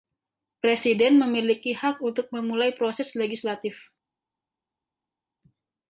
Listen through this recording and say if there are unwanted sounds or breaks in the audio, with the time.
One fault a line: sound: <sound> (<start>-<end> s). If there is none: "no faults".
no faults